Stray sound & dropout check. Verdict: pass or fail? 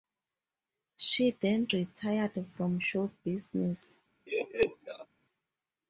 fail